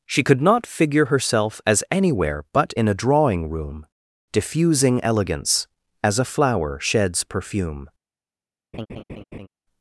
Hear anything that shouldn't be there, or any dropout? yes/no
yes